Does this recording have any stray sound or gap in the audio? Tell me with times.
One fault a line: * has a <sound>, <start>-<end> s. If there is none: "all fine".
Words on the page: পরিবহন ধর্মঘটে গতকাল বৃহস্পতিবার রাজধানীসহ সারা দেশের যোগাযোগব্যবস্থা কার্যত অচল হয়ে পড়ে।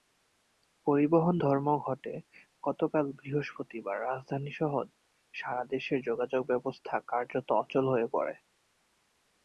all fine